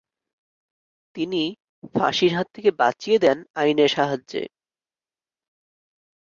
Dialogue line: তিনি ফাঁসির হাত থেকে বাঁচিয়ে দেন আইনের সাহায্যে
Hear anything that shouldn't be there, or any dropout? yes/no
no